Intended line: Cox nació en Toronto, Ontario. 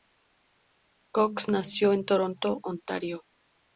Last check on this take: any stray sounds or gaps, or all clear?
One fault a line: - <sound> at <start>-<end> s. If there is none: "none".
none